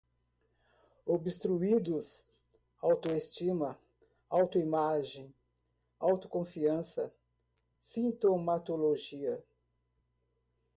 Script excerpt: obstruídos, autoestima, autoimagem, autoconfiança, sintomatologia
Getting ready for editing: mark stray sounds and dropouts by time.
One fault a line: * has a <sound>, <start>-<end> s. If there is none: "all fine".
all fine